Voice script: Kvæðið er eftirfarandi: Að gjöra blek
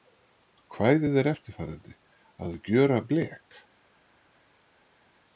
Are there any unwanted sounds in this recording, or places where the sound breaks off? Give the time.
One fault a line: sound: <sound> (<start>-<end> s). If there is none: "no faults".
no faults